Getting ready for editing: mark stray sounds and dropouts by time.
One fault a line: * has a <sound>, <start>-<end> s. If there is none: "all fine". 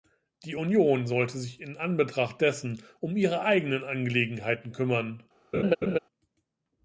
* has a laugh, 5.5-6.0 s